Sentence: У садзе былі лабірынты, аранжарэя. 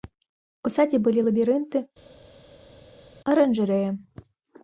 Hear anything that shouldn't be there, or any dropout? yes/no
no